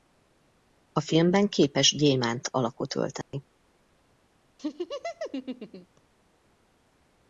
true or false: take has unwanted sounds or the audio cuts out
true